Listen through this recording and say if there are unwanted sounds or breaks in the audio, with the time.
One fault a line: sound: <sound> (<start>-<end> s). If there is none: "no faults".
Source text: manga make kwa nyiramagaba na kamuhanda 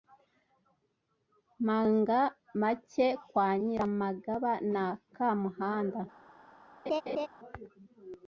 sound: laugh (6.9-7.3 s)